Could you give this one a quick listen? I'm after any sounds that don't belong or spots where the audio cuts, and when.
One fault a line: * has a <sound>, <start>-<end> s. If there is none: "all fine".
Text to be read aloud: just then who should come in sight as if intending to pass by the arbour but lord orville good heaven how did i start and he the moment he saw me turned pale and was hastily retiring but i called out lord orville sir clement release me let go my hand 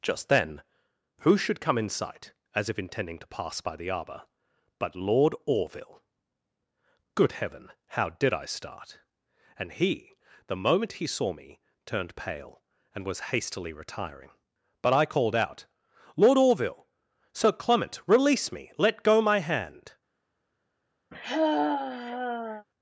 * has a sigh, 21.1-22.6 s